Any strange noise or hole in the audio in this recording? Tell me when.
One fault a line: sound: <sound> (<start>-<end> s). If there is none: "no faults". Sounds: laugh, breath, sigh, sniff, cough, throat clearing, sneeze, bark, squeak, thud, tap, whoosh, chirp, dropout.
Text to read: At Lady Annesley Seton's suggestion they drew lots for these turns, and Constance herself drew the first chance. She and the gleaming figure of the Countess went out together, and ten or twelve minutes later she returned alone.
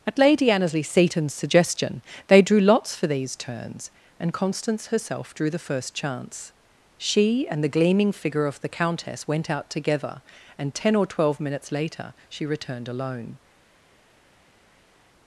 no faults